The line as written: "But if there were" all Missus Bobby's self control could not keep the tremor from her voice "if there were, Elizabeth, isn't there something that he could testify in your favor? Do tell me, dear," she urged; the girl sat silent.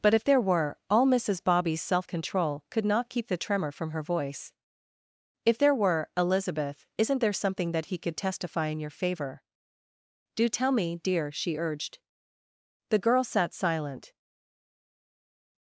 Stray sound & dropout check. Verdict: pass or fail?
pass